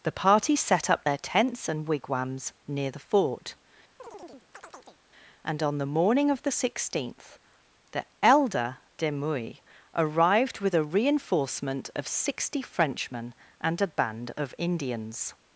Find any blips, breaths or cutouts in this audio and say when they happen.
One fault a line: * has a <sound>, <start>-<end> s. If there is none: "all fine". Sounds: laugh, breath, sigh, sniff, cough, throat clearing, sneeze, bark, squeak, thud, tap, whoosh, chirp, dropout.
* has a chirp, 4.0-5.0 s